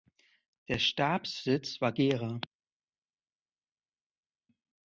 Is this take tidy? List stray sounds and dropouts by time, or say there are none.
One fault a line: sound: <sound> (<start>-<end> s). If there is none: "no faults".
no faults